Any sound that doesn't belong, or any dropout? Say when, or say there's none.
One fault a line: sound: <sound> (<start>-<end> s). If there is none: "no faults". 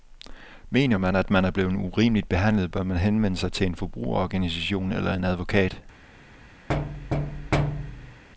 sound: thud (6.7-8.2 s)